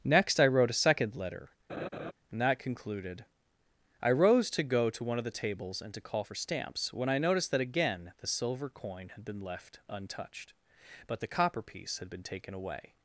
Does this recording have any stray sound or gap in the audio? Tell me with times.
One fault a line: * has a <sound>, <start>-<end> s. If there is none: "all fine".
* has a laugh, 1.7-2.1 s